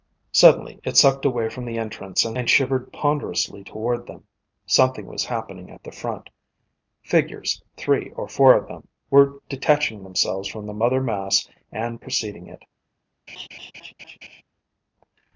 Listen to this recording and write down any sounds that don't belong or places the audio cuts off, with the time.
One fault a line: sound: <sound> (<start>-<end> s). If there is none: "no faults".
sound: laugh (13.3-14.4 s)